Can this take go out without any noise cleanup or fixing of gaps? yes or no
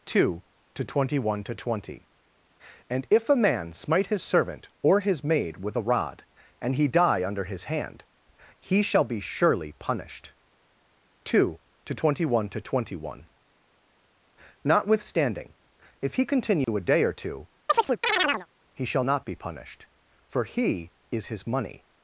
no